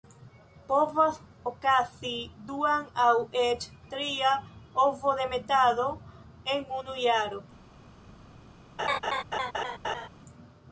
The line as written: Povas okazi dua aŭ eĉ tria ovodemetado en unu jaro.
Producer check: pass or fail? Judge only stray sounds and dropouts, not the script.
fail